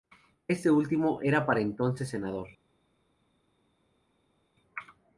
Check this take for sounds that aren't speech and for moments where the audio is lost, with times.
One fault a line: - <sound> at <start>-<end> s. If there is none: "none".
none